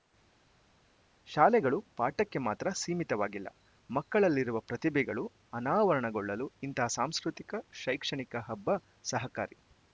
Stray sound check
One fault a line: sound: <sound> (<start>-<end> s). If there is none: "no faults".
no faults